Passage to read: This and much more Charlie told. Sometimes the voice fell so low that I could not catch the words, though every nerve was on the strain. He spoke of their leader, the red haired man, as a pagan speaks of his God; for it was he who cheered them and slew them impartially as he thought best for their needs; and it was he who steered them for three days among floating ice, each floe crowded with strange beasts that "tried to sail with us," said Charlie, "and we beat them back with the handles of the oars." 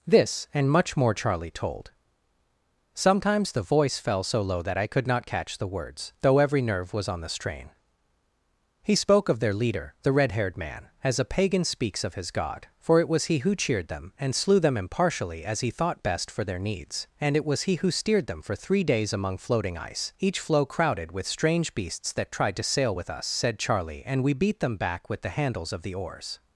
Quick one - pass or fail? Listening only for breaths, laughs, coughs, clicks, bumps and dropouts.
pass